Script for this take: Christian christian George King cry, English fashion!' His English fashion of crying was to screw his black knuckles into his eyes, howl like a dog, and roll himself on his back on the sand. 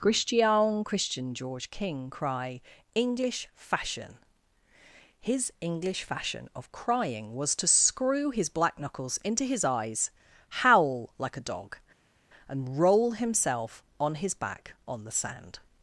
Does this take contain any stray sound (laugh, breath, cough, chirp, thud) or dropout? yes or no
no